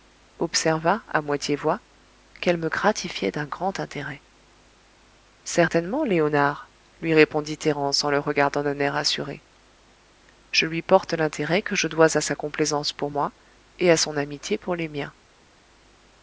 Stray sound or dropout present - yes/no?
no